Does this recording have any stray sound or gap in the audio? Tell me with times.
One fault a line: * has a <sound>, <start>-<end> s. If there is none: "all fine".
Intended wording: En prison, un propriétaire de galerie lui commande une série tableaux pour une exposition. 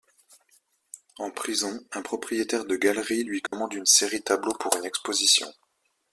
* has a dropout, 3.5-3.5 s